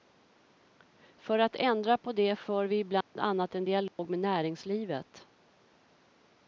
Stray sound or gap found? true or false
true